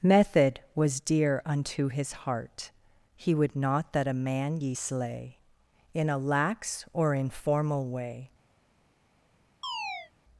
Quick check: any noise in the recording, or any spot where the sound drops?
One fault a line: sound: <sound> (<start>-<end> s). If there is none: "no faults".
sound: chirp (9.6-10.1 s)